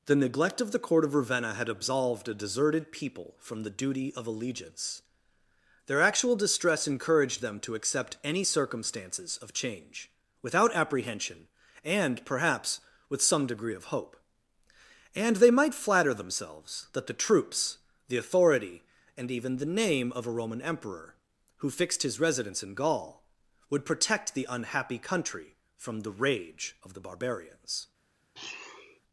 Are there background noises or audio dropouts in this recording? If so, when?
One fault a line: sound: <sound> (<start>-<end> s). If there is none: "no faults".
sound: sniff (28.3-29.0 s)